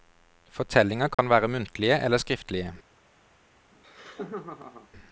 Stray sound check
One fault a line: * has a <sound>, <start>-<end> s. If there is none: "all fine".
* has a dropout, 1.1-1.2 s
* has a laugh, 3.7-4.9 s